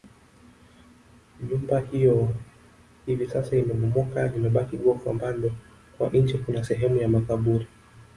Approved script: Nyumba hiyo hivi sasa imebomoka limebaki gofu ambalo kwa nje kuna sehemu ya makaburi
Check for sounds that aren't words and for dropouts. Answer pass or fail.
pass